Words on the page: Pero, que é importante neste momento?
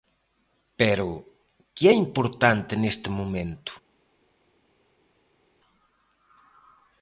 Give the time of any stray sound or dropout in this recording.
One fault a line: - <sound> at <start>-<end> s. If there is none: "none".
none